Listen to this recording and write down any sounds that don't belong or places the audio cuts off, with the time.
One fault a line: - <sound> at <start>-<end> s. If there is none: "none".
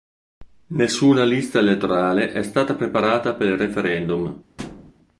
- thud at 4.6-4.9 s